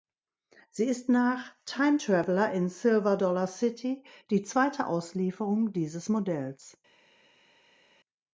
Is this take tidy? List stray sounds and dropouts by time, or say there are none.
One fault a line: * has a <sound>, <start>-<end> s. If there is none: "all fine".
all fine